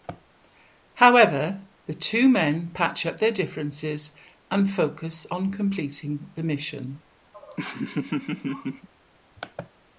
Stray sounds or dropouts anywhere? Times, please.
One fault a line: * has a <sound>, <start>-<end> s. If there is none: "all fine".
* has a laugh, 7.3-8.9 s